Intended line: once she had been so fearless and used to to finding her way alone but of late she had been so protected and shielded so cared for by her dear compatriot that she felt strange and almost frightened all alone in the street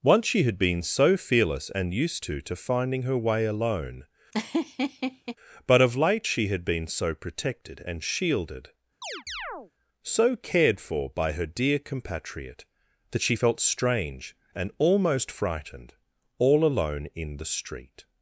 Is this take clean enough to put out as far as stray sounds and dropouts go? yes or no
no